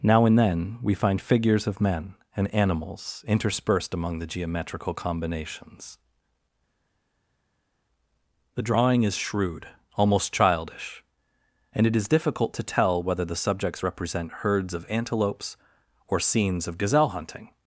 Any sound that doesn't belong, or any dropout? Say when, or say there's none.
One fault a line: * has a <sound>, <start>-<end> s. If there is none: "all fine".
all fine